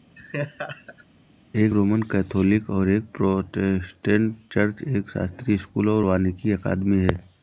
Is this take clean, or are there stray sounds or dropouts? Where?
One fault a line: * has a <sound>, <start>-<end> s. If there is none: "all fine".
* has a laugh, 0.2-1.1 s